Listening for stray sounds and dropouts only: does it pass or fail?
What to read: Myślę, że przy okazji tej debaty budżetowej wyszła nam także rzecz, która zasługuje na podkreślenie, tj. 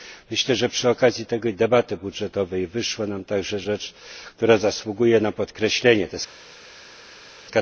pass